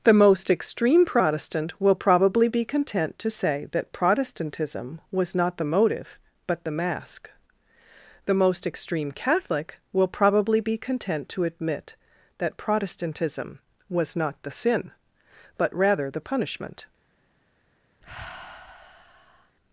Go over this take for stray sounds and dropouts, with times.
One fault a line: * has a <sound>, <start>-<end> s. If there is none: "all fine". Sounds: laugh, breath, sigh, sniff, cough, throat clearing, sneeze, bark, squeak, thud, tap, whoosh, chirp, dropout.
* has a sigh, 18.0-19.6 s